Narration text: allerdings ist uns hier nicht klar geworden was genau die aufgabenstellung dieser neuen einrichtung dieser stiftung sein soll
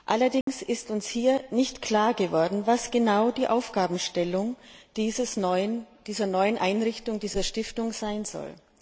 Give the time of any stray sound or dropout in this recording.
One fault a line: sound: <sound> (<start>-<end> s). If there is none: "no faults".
sound: dropout (0.4-0.5 s)